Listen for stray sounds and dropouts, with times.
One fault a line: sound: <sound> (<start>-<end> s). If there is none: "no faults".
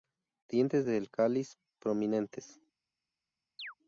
sound: chirp (3.6-3.7 s)